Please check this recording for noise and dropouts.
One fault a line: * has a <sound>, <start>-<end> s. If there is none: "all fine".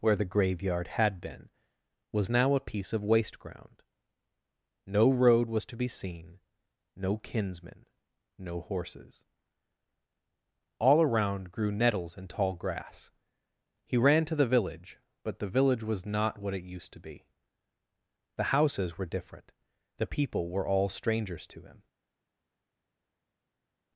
all fine